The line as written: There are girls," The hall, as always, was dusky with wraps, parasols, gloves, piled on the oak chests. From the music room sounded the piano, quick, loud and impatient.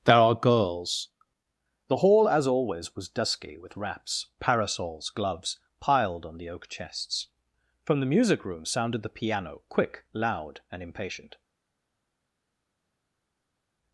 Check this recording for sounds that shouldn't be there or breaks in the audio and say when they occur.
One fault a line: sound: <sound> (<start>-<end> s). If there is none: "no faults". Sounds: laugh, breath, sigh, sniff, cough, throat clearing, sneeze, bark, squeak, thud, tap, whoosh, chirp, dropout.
no faults